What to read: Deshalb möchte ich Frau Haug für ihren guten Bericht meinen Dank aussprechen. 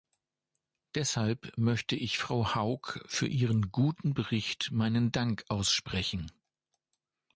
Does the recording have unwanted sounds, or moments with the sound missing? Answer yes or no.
no